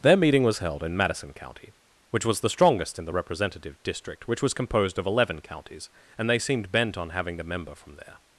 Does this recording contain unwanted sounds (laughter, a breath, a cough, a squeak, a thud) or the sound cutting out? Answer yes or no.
no